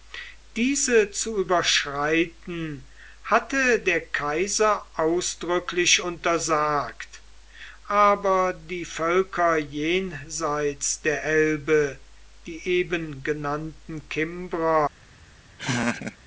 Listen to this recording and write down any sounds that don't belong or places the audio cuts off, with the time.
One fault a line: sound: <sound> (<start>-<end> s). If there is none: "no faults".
sound: laugh (15.6-16.2 s)